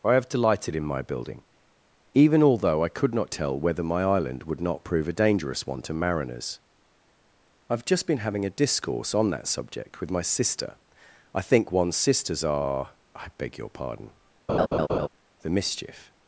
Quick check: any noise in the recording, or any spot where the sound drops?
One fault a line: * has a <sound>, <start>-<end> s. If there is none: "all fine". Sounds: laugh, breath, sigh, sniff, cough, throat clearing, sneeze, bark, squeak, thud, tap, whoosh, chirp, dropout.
* has a laugh, 14.5-15.1 s